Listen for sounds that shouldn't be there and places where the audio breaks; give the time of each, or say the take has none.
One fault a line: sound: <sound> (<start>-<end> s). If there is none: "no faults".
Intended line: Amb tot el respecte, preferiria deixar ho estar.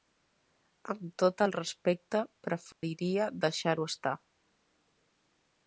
sound: dropout (2.7-2.8 s)